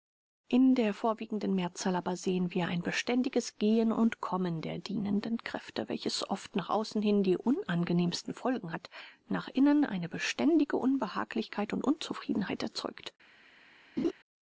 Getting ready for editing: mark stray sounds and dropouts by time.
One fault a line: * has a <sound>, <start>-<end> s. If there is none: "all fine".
* has a laugh, 14.0-14.1 s